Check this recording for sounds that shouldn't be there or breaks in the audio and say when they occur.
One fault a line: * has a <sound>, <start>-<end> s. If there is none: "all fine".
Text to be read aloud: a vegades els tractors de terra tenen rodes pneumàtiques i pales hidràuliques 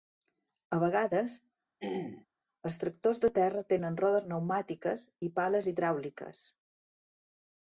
* has a throat clearing, 1.8-2.3 s